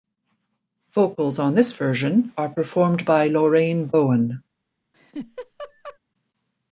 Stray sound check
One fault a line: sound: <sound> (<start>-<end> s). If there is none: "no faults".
sound: laugh (4.9-6.0 s)